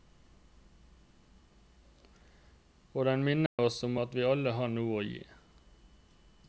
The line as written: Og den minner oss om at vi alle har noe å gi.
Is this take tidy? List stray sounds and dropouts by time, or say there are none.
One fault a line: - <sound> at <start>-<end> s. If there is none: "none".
- dropout at 3.5-3.6 s